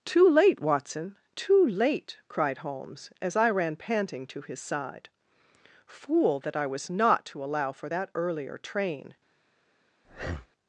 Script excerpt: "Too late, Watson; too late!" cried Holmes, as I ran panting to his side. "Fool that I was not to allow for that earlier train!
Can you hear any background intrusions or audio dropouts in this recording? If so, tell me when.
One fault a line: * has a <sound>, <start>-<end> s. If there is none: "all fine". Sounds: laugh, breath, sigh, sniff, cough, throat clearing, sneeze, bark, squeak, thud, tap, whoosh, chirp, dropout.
* has a breath, 10.0-10.5 s